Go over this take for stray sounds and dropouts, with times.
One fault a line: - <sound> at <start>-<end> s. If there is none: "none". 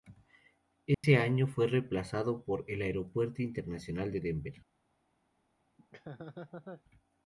- dropout at 0.9-1.0 s
- laugh at 5.8-6.8 s